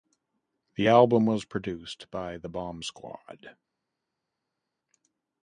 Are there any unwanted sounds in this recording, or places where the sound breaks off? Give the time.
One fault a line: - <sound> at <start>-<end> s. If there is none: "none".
none